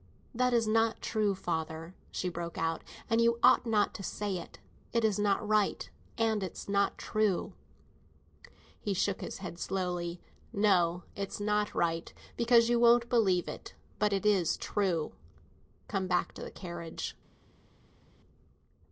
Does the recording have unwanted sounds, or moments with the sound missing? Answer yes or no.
no